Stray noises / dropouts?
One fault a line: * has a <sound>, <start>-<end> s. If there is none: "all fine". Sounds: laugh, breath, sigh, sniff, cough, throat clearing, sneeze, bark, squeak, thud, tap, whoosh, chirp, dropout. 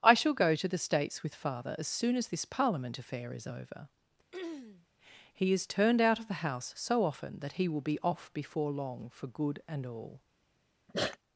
* has a throat clearing, 4.3-4.9 s
* has a sneeze, 10.9-11.2 s